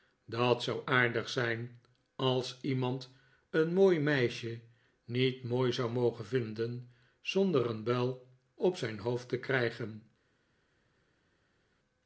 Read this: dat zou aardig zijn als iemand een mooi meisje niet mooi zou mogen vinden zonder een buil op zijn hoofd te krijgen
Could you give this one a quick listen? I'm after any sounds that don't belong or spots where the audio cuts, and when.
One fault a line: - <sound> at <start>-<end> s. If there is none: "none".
none